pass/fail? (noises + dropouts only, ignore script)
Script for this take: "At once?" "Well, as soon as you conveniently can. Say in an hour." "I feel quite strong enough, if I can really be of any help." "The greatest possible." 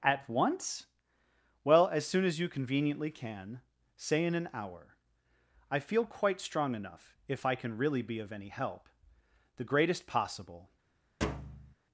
fail